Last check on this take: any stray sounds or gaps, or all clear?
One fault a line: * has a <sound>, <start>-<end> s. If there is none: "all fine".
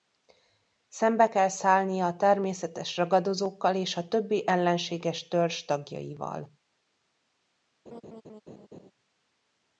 * has a laugh, 7.9-8.9 s